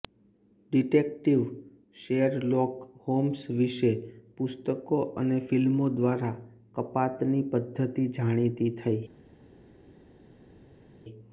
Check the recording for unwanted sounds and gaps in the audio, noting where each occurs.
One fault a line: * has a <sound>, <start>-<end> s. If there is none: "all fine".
all fine